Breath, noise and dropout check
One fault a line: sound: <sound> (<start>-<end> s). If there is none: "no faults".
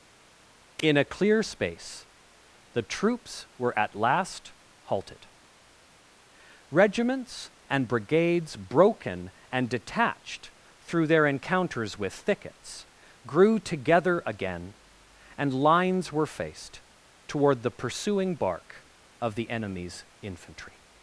no faults